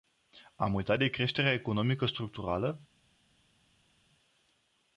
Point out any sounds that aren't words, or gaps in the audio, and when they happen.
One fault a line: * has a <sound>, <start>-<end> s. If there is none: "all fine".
all fine